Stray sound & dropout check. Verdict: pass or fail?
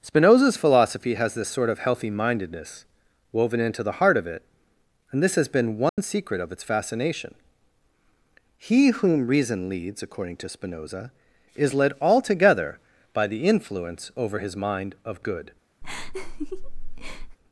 fail